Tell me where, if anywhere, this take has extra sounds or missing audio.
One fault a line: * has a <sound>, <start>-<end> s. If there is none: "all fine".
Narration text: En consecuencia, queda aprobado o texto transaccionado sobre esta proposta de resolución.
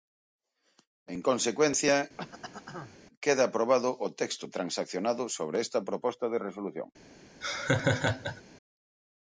* has a throat clearing, 2.2-3.0 s
* has a laugh, 7.4-8.4 s